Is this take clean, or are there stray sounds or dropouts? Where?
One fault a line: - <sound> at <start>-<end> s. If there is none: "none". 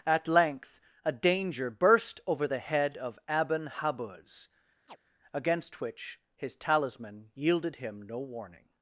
- chirp at 4.9-5.0 s